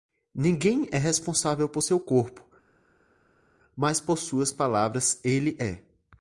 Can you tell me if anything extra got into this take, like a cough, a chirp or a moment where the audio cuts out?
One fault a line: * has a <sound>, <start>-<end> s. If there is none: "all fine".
all fine